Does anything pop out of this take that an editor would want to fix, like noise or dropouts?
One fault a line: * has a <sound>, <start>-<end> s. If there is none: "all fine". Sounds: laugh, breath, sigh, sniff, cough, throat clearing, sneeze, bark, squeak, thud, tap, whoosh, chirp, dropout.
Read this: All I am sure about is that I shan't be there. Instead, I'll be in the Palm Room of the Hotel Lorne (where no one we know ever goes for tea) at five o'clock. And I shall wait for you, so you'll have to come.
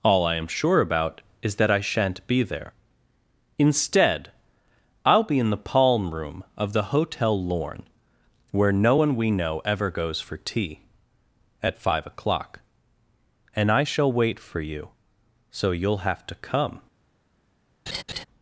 * has a laugh, 17.9-18.2 s